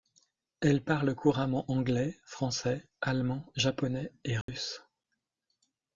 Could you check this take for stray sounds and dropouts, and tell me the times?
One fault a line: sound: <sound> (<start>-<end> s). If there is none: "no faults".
sound: dropout (4.4-4.5 s)